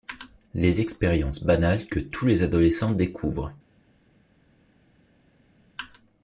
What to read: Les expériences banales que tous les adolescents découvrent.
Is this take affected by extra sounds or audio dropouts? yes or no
no